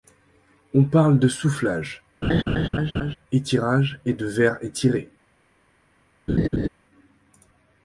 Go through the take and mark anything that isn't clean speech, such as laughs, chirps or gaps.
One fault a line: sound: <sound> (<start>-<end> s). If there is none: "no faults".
sound: laugh (2.2-3.2 s)
sound: laugh (6.3-6.7 s)